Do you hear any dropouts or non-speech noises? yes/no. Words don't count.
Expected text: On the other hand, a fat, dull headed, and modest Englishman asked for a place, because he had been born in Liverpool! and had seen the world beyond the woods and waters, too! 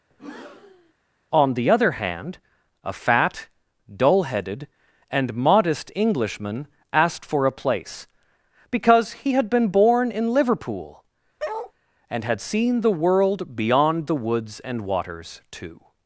yes